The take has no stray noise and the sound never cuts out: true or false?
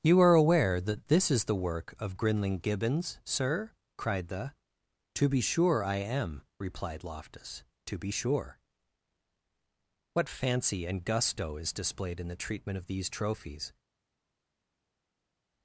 true